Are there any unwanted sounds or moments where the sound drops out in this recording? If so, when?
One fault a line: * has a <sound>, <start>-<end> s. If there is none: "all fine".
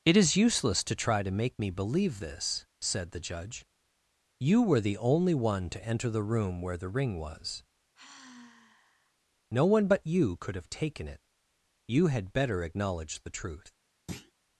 * has a sigh, 7.9-9.1 s
* has a thud, 14.1-14.3 s